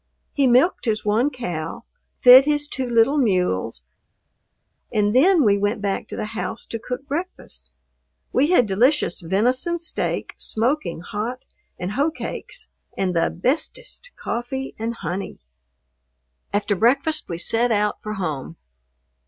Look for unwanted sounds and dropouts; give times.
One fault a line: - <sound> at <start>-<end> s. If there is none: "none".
none